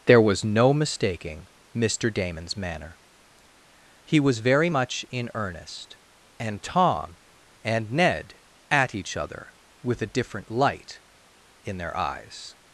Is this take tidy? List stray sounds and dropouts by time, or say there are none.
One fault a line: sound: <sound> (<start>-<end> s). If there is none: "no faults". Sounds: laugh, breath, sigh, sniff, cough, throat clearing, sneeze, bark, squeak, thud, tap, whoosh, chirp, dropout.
no faults